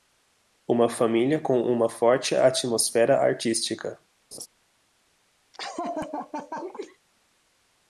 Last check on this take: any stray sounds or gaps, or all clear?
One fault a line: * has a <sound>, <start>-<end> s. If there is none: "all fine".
* has a laugh, 4.3-4.5 s
* has a laugh, 5.5-7.0 s